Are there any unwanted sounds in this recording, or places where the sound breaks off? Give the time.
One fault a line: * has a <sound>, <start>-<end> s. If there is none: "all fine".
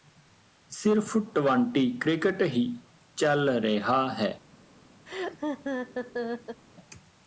* has a laugh, 5.1-6.6 s